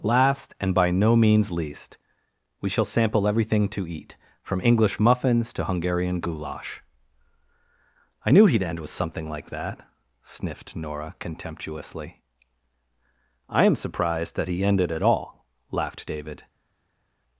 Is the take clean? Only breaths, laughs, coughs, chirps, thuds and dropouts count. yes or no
yes